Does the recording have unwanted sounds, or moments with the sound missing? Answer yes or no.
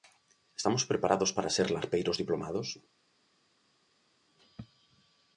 no